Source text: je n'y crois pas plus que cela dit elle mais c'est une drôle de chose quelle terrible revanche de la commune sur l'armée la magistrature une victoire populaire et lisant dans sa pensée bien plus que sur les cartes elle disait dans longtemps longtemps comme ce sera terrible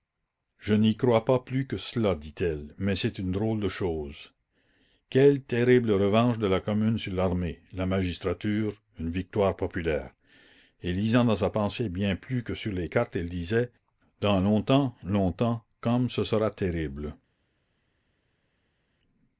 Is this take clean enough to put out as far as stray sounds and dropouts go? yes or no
yes